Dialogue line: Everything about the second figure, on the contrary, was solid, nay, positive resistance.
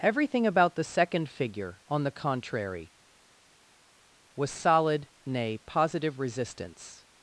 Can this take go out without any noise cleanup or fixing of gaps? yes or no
yes